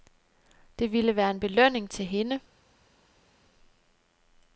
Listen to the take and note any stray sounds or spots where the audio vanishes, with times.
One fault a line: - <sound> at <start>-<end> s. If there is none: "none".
none